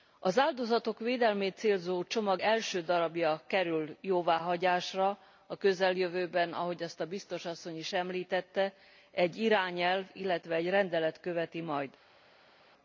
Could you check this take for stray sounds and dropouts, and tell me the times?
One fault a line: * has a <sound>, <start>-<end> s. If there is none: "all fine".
all fine